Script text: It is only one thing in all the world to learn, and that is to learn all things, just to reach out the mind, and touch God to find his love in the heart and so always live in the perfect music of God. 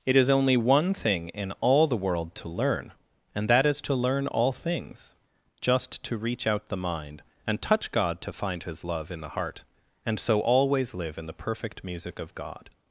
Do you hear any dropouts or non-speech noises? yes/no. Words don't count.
no